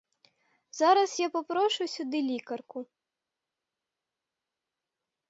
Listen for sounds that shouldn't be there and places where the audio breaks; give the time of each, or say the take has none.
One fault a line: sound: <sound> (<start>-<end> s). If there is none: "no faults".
no faults